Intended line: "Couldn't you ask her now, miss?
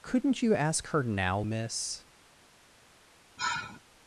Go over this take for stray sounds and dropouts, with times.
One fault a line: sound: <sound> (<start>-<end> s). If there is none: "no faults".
sound: sigh (3.4-3.8 s)